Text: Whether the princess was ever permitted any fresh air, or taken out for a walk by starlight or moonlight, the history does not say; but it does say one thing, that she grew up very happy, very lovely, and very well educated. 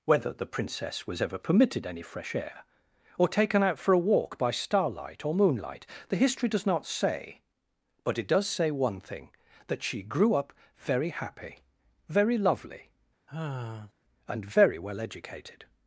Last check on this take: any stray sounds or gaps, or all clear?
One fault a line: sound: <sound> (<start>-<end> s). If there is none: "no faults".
sound: sigh (13.3-13.9 s)